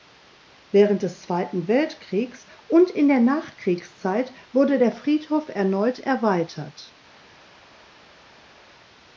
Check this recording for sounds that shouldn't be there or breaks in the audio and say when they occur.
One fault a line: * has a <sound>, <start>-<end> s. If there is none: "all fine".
all fine